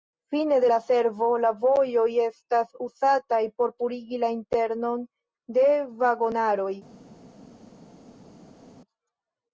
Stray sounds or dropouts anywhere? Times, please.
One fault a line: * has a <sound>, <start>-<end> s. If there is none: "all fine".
all fine